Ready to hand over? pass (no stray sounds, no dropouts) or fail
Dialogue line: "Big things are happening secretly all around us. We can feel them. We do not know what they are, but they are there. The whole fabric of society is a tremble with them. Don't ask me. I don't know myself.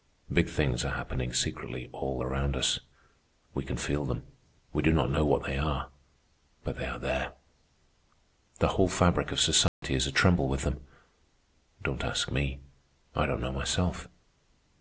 fail